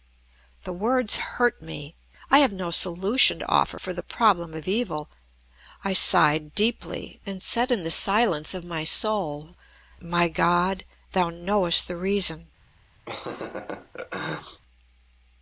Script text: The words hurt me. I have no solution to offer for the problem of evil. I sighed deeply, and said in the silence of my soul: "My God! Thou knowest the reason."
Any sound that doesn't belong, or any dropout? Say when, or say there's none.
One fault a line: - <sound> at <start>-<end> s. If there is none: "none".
- laugh at 13.1-14.6 s